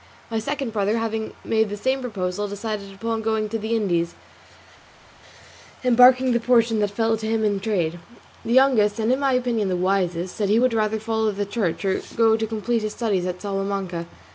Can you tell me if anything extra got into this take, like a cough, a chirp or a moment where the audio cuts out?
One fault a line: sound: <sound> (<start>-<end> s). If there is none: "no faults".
no faults